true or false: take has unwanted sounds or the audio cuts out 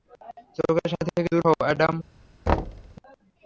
true